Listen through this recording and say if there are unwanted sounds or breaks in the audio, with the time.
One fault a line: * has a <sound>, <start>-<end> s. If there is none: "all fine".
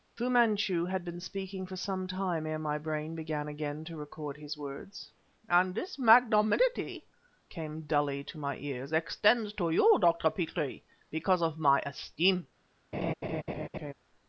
* has a laugh, 12.9-13.9 s